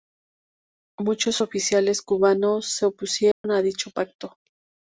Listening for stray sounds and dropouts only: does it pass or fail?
fail